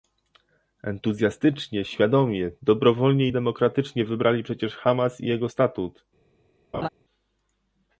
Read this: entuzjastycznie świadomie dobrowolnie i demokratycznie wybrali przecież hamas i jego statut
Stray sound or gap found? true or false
true